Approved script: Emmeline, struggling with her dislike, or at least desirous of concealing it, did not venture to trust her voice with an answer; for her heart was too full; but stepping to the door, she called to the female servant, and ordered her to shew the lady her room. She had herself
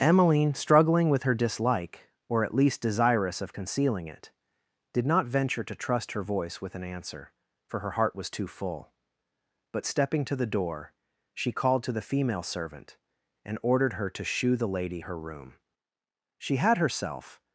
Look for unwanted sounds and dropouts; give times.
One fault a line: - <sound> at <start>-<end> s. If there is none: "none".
none